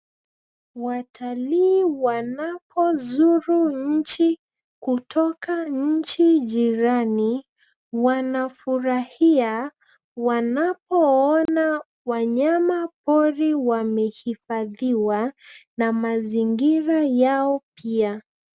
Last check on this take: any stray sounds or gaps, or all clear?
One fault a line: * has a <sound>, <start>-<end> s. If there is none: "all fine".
* has a dropout, 11.5-11.5 s